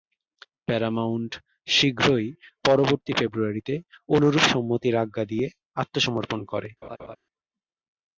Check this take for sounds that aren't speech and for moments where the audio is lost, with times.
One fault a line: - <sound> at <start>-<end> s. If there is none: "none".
- laugh at 6.8-7.2 s